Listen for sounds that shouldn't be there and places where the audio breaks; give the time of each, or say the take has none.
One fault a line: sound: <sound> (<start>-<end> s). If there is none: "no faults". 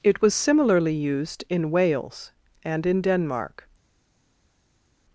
no faults